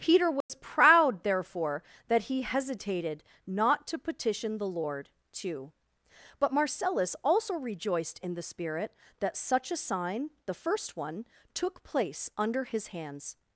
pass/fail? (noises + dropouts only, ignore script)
fail